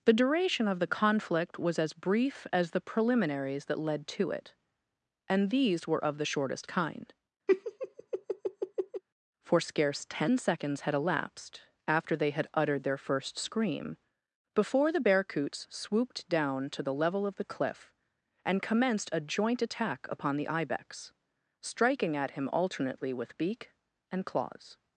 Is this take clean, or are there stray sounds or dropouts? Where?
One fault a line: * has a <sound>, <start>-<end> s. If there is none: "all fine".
* has a laugh, 7.5-9.0 s